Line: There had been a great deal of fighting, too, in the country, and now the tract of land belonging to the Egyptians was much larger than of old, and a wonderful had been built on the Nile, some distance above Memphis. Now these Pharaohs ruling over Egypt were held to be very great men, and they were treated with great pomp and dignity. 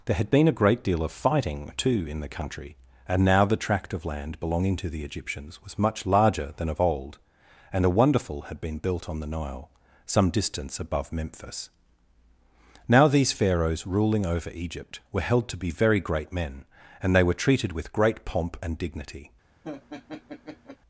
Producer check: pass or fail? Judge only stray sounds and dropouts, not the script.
fail